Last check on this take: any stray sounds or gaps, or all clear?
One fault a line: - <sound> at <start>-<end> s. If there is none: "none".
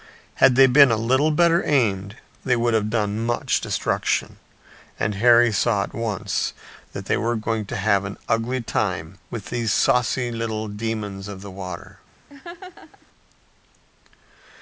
- laugh at 12.3-13.1 s